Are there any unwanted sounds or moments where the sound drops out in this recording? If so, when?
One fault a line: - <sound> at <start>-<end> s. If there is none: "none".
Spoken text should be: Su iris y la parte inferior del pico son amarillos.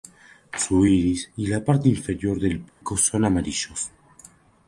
- dropout at 2.7-2.8 s